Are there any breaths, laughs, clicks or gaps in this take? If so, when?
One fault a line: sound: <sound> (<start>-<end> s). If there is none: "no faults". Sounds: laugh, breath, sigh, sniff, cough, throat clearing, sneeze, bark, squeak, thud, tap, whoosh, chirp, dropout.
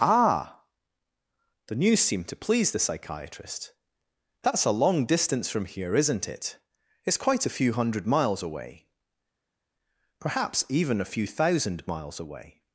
no faults